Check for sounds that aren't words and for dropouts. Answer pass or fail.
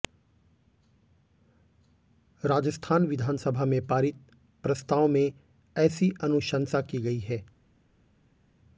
pass